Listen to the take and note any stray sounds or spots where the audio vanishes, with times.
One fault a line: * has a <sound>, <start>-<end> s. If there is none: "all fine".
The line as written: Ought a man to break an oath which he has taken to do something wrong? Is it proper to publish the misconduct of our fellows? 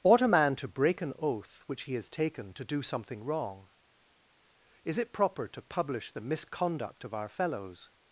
all fine